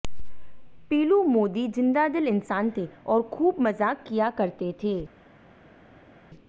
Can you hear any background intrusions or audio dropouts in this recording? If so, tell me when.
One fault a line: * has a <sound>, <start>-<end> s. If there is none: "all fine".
all fine